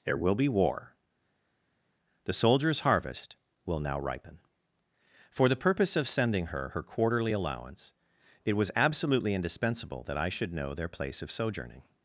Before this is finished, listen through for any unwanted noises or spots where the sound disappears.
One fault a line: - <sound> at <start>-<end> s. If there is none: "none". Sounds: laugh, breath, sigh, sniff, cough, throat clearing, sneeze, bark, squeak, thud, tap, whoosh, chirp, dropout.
none